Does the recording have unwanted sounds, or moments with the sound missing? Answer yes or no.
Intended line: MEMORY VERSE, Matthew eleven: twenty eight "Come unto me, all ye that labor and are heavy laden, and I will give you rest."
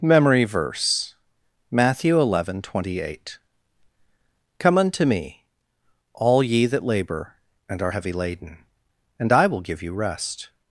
no